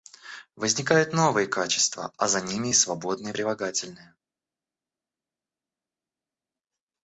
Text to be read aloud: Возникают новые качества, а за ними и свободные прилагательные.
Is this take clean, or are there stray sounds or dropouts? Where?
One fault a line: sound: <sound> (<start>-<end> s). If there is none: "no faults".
no faults